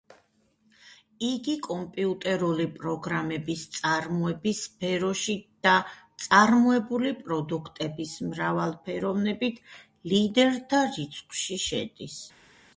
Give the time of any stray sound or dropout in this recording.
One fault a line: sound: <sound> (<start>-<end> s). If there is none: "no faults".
no faults